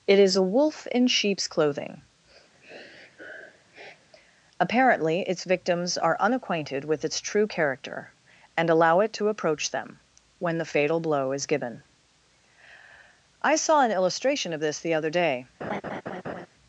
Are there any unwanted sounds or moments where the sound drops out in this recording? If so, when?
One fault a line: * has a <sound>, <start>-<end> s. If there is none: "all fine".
* has a sniff, 2.5-4.1 s
* has a laugh, 15.6-16.5 s